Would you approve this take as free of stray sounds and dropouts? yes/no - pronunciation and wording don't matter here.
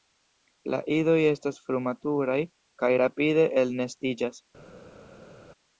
yes